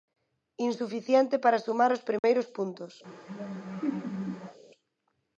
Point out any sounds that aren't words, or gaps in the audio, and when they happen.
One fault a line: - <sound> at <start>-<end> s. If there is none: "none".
- dropout at 2.2-2.2 s
- laugh at 3.0-4.6 s